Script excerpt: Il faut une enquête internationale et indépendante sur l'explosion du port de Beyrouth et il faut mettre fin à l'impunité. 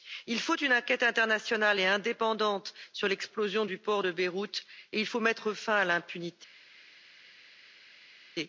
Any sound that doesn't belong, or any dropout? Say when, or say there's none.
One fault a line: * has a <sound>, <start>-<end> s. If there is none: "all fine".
all fine